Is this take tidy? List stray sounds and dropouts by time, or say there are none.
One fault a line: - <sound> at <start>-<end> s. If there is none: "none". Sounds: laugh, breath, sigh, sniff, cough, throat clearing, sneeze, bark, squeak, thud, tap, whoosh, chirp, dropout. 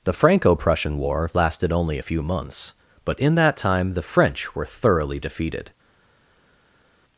none